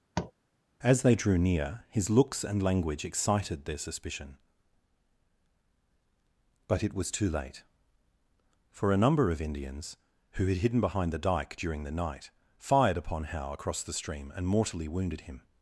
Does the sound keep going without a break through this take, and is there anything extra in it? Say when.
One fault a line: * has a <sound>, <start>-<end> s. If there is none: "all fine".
* has a tap, 0.1-0.3 s